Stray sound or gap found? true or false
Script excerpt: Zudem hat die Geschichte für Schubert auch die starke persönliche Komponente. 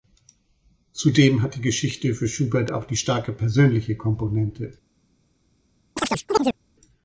true